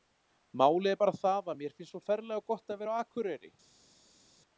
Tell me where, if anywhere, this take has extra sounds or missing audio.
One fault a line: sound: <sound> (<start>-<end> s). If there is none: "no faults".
no faults